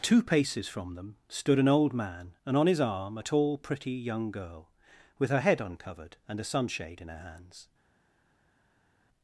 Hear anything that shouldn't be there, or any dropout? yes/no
no